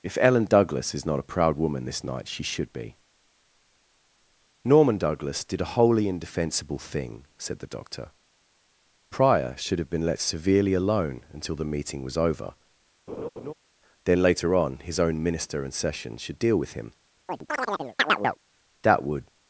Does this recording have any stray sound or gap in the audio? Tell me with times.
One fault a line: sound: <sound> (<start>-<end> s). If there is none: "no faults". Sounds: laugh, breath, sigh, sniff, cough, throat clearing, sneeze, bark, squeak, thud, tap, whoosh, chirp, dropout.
sound: laugh (13.1-13.5 s)
sound: chirp (17.3-18.4 s)